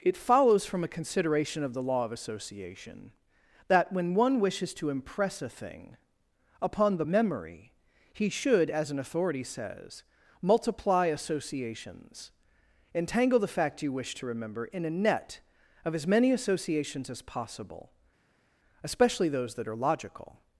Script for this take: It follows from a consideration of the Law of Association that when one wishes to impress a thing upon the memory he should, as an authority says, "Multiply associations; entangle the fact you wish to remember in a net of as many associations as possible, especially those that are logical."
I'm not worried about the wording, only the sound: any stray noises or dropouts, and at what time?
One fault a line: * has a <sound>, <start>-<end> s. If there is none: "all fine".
all fine